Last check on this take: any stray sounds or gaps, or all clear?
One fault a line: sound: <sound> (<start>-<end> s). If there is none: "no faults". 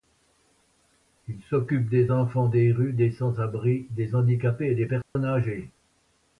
sound: dropout (5.0-5.2 s)